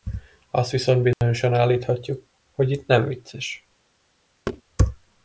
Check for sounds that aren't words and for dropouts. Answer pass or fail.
fail